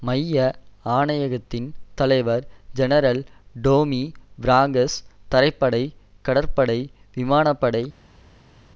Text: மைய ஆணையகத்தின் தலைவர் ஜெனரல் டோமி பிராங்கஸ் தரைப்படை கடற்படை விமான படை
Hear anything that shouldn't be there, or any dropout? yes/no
no